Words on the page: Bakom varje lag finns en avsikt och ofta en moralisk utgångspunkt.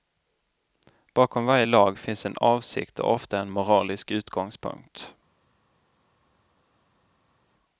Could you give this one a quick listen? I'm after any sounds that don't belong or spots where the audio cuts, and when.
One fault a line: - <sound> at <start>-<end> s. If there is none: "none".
none